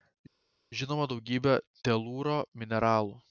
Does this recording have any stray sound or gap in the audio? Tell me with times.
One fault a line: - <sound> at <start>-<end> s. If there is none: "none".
none